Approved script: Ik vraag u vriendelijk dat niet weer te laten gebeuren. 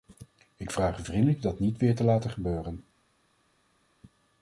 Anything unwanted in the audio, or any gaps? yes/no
no